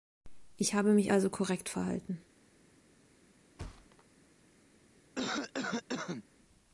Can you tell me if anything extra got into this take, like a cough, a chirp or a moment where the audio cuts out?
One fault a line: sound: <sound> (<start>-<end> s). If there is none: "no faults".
sound: thud (3.6-4.0 s)
sound: cough (5.2-6.2 s)